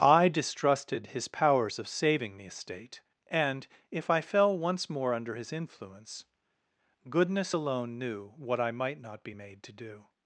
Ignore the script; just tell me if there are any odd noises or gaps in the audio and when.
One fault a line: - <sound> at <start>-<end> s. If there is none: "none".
none